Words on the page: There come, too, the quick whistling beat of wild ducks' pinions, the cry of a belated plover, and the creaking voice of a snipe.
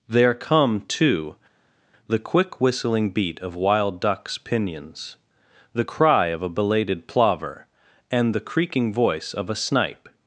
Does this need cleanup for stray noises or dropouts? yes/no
no